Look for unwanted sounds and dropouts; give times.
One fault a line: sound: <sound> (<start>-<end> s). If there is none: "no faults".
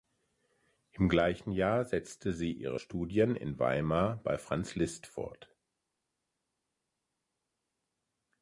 no faults